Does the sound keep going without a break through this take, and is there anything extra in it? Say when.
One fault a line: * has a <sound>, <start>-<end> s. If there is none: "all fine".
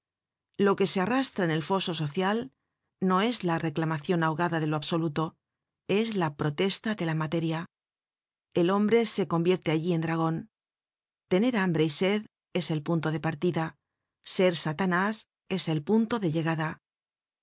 all fine